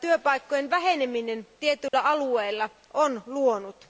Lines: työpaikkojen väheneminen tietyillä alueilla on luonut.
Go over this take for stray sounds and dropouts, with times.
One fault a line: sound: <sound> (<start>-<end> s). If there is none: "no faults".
sound: dropout (1.9-1.9 s)